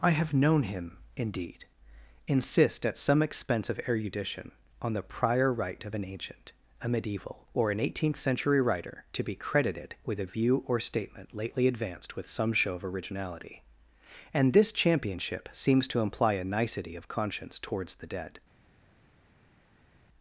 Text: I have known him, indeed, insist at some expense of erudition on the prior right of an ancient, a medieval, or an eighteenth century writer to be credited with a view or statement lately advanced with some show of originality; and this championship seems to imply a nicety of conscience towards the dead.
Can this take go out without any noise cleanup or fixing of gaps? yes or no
yes